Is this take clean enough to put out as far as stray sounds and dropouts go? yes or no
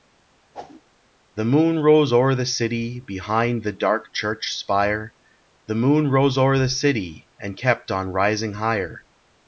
no